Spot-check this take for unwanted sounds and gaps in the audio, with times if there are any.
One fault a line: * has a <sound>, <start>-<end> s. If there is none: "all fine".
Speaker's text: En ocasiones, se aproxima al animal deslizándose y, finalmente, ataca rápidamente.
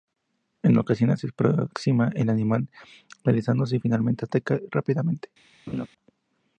* has a laugh, 5.7-5.9 s